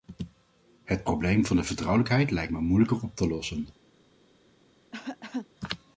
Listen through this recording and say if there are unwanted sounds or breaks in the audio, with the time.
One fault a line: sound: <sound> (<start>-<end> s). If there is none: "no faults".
sound: cough (4.9-5.5 s)